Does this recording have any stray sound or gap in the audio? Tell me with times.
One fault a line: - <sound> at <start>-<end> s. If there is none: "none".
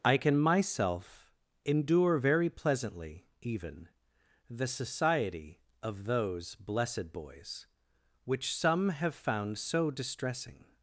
none